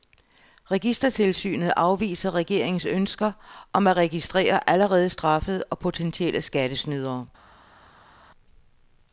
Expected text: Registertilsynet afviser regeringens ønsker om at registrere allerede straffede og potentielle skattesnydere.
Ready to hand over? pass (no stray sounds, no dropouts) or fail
pass